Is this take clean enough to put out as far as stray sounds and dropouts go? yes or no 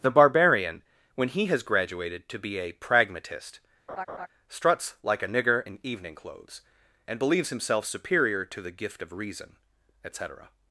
no